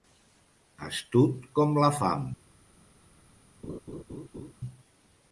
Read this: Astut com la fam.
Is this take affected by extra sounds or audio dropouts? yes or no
yes